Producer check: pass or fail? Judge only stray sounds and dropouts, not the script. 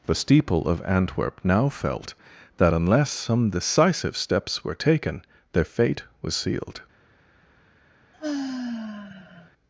fail